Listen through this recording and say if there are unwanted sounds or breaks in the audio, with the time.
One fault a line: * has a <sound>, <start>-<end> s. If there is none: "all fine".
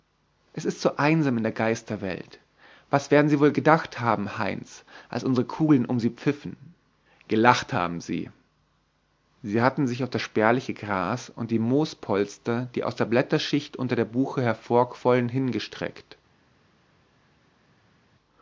all fine